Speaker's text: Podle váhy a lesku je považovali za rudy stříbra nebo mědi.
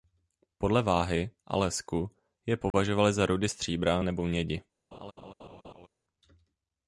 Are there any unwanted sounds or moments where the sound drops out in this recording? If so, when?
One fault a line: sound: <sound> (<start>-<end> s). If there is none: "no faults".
sound: dropout (2.7-2.7 s)
sound: laugh (4.9-5.9 s)